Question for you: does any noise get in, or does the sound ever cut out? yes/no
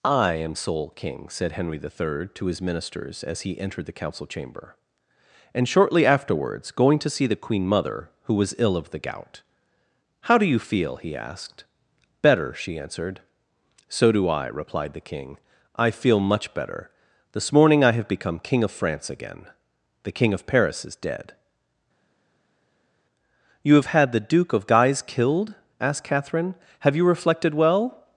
no